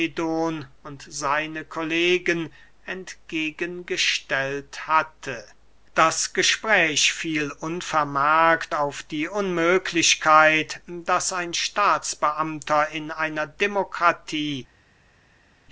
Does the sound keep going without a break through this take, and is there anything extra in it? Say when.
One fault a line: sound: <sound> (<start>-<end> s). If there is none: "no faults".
no faults